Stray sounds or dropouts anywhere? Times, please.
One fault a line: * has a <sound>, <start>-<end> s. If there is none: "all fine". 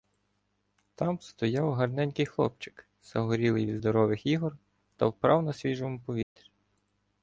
* has a dropout, 6.2-6.4 s